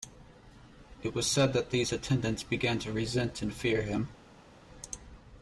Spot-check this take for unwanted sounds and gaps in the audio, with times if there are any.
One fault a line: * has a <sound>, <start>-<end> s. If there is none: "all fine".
all fine